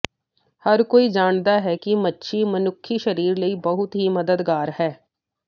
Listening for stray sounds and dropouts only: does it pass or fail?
pass